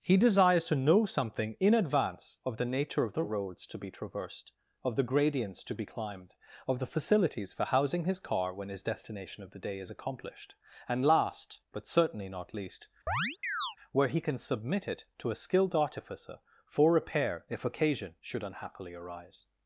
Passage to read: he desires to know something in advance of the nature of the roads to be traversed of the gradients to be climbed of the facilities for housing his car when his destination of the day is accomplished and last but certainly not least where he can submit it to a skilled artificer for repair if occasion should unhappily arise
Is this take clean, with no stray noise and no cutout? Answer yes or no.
no